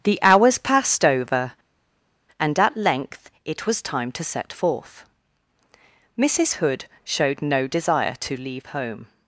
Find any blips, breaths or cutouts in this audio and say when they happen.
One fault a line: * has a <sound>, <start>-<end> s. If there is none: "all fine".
all fine